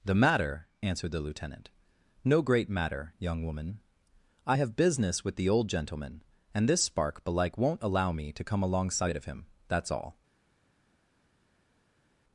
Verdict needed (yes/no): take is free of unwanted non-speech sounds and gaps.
yes